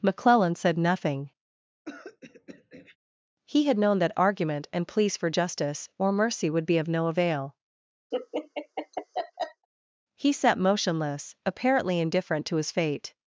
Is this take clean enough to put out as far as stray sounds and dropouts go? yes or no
no